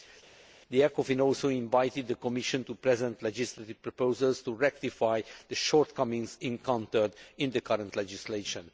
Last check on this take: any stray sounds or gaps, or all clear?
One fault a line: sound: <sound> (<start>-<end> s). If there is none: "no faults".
no faults